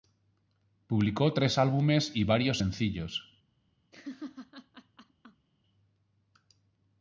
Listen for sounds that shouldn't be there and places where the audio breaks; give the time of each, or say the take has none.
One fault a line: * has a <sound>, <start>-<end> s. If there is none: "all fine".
* has a laugh, 3.9-5.5 s